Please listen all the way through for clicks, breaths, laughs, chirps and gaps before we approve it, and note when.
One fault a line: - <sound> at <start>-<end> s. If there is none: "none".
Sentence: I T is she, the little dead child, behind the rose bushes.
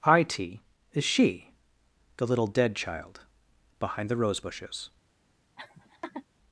- laugh at 5.6-6.3 s